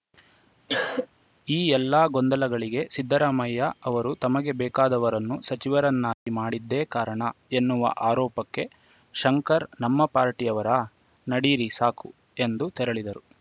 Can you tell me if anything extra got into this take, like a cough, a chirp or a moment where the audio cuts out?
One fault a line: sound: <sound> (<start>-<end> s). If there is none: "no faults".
sound: cough (0.7-1.1 s)
sound: dropout (6.1-6.3 s)